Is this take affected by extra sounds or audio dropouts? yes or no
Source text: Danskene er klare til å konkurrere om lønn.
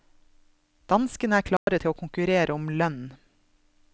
yes